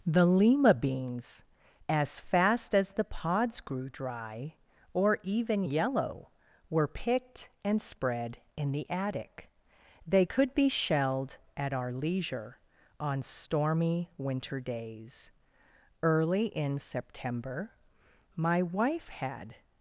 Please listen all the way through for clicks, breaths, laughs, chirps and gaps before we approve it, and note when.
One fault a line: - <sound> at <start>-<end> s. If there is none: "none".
none